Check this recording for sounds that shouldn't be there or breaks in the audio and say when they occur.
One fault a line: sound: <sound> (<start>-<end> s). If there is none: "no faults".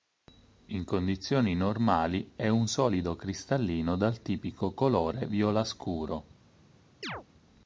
sound: chirp (7.0-7.2 s)